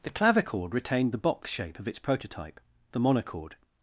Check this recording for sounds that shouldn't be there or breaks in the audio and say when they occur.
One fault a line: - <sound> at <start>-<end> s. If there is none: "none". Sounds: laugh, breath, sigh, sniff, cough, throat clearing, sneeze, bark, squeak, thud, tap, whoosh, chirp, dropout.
none